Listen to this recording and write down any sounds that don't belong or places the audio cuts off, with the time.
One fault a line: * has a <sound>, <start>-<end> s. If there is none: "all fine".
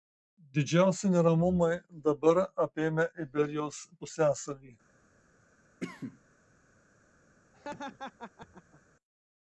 * has a cough, 5.8-6.2 s
* has a laugh, 7.5-8.8 s